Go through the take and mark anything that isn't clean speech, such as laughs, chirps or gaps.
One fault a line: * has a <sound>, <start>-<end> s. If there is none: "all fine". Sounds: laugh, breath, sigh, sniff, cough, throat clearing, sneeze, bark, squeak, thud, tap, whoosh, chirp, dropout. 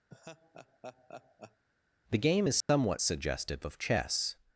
* has a laugh, 0.1-1.6 s
* has a dropout, 2.6-2.7 s